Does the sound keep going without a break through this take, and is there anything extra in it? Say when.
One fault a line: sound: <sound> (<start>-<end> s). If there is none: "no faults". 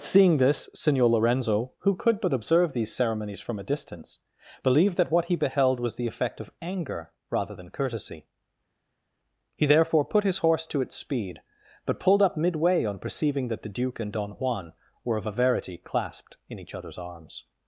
no faults